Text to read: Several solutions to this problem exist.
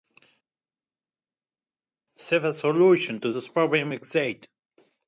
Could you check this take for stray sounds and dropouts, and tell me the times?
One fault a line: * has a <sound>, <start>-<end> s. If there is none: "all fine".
all fine